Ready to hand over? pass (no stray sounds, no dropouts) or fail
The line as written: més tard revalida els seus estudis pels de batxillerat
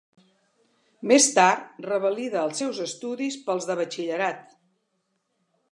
pass